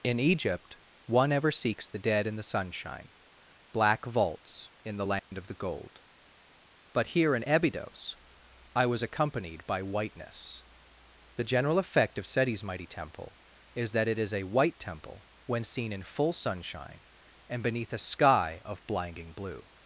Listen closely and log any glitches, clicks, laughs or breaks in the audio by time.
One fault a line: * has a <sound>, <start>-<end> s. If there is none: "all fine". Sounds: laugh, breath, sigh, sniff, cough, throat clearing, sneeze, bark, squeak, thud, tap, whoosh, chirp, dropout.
* has a dropout, 5.2-5.3 s